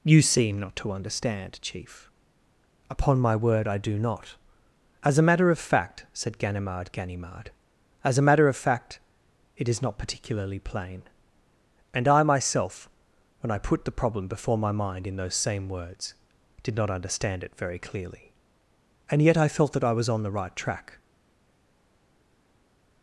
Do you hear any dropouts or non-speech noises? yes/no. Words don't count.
no